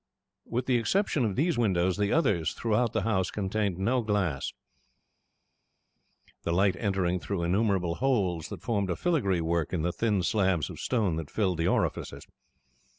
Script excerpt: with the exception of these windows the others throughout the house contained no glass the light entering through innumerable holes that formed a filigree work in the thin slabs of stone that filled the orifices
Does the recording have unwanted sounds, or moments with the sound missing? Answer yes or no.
no